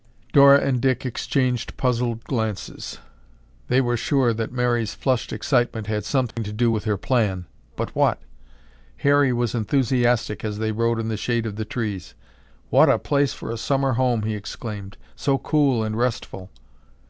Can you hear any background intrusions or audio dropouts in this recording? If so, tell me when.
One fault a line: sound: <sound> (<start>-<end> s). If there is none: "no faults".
sound: dropout (6.3-6.4 s)